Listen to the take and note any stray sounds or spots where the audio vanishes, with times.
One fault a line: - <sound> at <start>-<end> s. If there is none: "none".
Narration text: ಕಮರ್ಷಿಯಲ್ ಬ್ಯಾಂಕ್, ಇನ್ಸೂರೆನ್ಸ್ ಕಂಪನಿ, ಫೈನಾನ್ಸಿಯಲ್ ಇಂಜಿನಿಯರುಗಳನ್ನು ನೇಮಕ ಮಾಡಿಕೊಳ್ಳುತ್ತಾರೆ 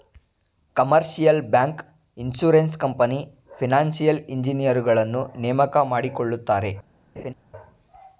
- laugh at 7.2-7.3 s